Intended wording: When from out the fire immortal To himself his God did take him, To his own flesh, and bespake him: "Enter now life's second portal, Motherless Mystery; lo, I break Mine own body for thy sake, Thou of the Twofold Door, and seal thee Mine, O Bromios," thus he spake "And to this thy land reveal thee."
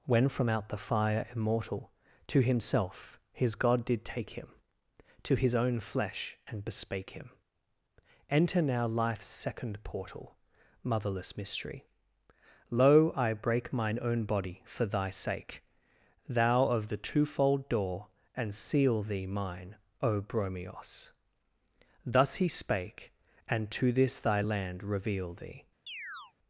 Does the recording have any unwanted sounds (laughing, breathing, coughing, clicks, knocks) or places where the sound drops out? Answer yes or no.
yes